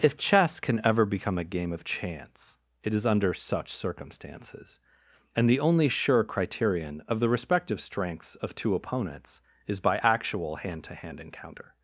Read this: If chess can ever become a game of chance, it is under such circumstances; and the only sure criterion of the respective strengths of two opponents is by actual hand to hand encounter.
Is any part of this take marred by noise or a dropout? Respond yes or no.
no